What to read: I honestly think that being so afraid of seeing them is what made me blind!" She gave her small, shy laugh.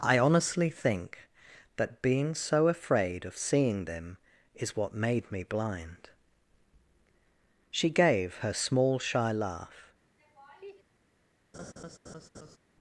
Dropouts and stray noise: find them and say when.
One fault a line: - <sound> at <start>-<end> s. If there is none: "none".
- laugh at 10.2-10.8 s
- laugh at 11.5-12.6 s